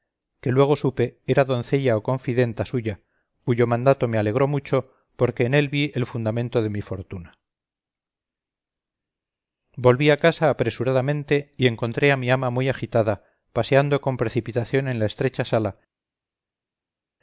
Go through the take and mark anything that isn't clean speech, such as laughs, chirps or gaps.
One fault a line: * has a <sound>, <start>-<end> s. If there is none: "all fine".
all fine